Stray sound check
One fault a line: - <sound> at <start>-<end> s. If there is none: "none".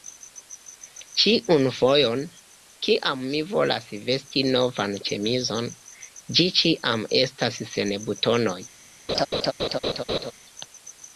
- laugh at 9.1-10.3 s